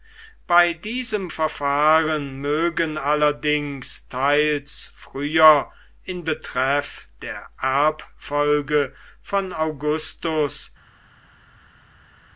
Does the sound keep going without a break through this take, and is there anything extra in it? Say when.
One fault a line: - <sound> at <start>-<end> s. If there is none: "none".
none